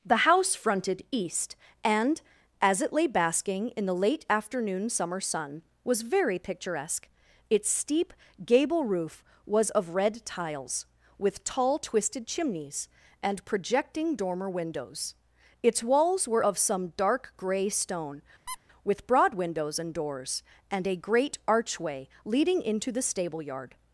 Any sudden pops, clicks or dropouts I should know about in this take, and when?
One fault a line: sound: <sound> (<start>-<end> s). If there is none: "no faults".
sound: squeak (18.5-18.6 s)